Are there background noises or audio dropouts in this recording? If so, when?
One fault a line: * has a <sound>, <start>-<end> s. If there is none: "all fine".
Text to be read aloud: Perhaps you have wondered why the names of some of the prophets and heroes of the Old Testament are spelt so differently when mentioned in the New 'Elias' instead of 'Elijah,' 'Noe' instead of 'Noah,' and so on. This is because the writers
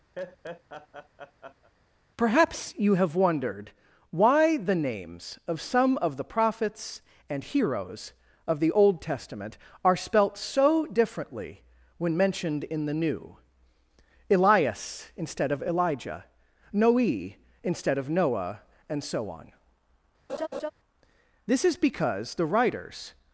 * has a laugh, 0.2-1.7 s
* has a laugh, 20.3-20.7 s